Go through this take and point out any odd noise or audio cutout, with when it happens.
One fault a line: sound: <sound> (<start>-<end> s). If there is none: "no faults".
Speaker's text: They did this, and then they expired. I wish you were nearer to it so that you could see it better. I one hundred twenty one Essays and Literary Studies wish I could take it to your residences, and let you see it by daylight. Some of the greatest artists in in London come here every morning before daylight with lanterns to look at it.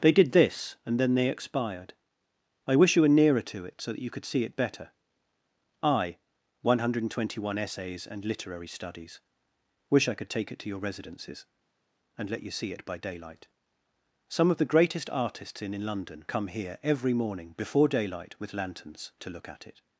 no faults